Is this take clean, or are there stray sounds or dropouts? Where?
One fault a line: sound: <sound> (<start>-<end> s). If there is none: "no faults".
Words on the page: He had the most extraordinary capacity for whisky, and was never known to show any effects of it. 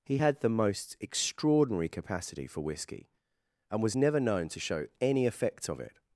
no faults